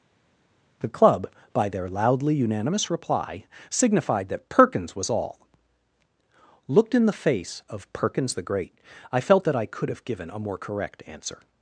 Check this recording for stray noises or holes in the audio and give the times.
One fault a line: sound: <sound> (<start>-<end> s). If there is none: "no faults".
no faults